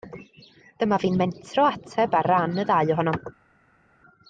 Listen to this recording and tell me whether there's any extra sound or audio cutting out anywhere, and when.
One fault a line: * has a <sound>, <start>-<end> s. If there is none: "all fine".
all fine